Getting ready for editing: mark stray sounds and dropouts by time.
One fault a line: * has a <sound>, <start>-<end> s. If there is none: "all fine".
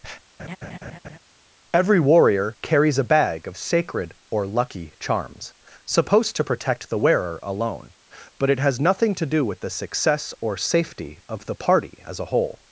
* has a laugh, 0.4-1.2 s